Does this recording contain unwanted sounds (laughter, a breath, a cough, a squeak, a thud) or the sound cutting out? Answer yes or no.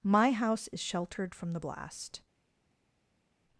no